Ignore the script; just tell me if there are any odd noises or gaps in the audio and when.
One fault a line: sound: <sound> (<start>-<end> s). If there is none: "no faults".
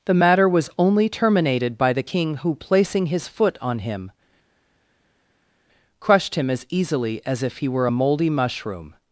no faults